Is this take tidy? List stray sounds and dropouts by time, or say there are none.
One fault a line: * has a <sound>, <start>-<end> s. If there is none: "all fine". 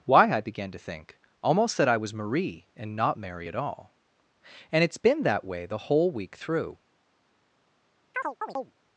* has a chirp, 8.1-8.7 s